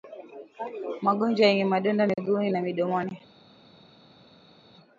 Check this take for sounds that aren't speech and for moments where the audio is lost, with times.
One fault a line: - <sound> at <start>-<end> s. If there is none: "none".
none